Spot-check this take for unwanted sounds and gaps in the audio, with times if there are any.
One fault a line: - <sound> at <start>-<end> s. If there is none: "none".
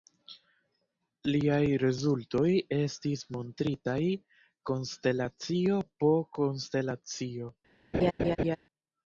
- laugh at 7.9-8.6 s